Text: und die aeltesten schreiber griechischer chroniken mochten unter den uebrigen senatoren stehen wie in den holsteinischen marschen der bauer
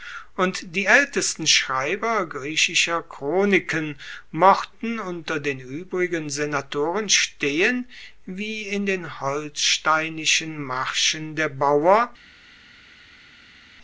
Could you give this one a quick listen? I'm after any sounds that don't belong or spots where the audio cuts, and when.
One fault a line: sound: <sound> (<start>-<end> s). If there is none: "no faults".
no faults